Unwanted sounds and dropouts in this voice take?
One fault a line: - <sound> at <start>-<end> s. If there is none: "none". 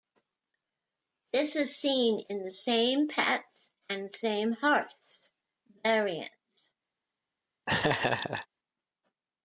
- laugh at 7.7-8.5 s